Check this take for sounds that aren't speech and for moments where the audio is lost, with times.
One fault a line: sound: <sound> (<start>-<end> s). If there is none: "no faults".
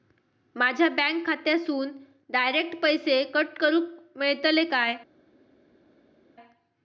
no faults